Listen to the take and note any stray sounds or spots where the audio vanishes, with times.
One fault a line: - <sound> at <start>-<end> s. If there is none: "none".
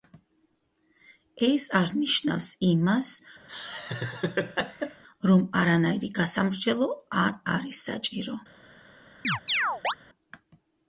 - laugh at 3.5-5.0 s
- chirp at 9.2-9.9 s